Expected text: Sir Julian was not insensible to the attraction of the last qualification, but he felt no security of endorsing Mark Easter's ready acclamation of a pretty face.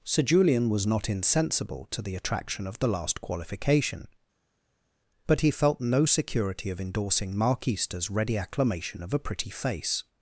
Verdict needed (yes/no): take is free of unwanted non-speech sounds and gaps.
yes